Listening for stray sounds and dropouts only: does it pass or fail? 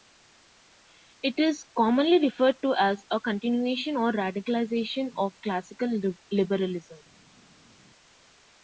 pass